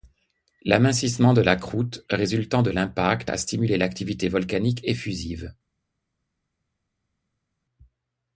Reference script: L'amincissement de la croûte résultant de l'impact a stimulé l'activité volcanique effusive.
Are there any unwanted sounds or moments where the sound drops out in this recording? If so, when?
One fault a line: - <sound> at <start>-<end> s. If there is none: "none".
none